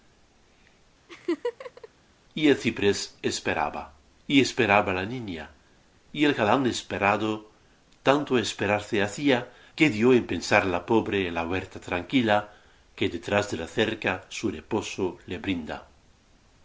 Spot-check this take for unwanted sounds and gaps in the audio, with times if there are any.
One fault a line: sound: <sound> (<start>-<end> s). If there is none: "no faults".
sound: laugh (1.1-1.9 s)